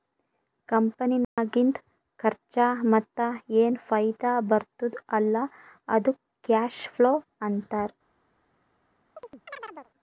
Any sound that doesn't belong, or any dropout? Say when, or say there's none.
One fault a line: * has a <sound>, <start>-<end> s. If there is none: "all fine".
* has a dropout, 1.2-1.4 s
* has a chirp, 9.2-9.9 s